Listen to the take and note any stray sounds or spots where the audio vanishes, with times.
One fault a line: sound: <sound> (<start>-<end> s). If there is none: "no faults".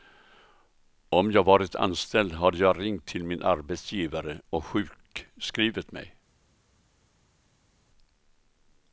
no faults